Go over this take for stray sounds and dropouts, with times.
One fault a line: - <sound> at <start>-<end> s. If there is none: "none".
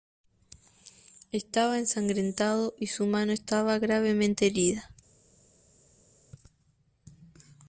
none